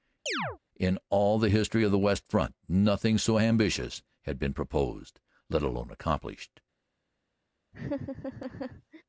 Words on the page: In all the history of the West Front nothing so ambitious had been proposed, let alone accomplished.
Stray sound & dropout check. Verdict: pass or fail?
fail